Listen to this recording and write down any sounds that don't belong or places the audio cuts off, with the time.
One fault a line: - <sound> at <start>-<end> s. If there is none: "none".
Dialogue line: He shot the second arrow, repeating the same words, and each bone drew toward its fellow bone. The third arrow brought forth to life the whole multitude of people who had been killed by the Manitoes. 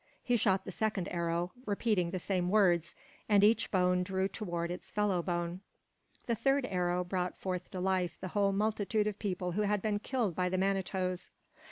none